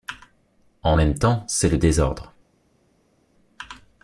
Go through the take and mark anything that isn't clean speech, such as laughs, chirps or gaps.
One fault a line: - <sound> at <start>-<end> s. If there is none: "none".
none